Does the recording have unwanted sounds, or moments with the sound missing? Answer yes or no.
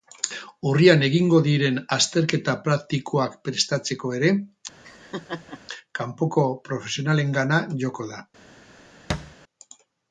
yes